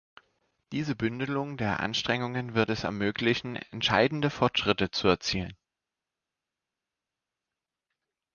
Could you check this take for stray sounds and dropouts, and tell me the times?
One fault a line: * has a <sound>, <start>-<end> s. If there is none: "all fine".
all fine